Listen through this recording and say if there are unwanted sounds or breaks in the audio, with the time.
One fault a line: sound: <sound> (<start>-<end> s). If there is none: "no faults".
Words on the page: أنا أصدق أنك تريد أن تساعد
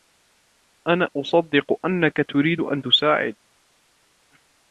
no faults